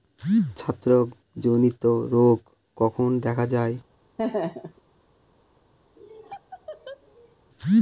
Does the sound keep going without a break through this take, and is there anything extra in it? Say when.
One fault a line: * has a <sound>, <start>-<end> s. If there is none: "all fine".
* has a laugh, 4.2-4.8 s
* has a laugh, 6.0-7.4 s